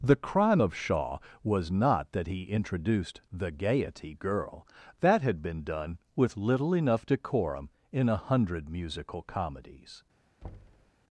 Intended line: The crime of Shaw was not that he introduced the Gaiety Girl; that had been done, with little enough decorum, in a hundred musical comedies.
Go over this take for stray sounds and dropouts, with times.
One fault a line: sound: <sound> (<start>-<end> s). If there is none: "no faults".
sound: thud (10.4-10.9 s)